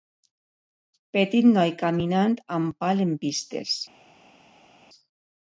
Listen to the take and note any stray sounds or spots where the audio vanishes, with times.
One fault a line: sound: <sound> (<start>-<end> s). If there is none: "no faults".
no faults